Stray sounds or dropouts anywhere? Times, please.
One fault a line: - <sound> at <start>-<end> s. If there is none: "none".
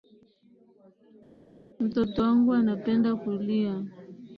none